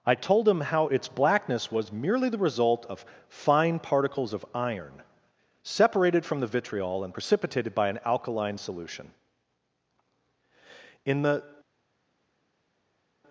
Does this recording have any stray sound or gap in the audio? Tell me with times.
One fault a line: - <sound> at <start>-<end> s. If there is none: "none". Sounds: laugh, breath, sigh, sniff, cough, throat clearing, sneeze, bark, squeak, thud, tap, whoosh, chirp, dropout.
none